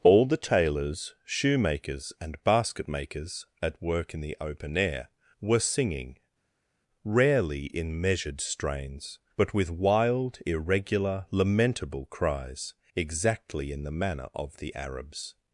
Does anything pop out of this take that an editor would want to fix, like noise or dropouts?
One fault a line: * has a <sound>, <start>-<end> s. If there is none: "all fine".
all fine